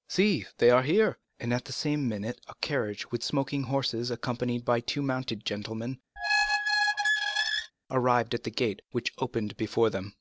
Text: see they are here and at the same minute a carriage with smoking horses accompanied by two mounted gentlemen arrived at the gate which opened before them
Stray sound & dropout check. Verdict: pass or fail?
fail